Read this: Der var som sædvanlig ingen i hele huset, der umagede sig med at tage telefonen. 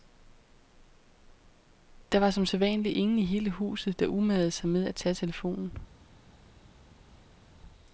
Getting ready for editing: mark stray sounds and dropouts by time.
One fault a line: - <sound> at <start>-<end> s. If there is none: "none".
none